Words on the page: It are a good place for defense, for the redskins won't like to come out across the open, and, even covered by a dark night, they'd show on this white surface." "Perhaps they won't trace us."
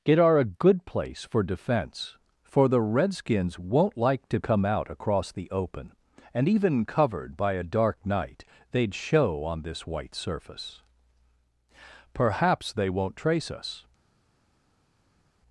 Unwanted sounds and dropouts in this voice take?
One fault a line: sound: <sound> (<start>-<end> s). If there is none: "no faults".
no faults